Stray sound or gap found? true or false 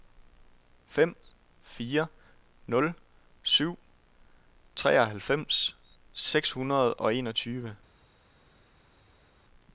false